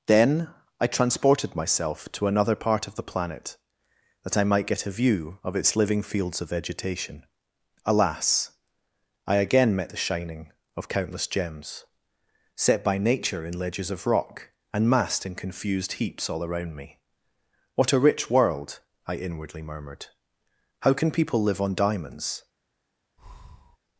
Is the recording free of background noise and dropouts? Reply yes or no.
no